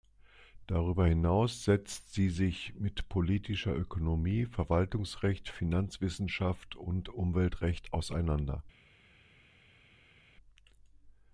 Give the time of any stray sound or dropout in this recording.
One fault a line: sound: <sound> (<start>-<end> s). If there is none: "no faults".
no faults